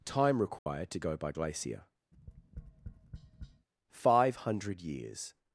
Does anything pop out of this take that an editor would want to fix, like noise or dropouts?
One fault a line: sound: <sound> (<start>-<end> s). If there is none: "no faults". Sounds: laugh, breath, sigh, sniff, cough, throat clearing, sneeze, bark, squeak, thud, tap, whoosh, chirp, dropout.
sound: dropout (0.6-0.7 s)
sound: tap (2.1-3.7 s)